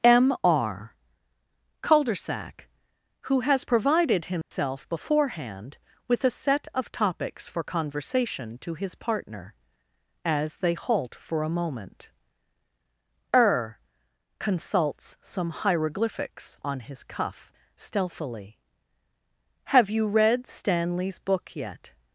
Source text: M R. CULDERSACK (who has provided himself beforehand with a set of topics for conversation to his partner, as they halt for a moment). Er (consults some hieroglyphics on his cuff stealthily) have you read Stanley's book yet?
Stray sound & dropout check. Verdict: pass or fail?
fail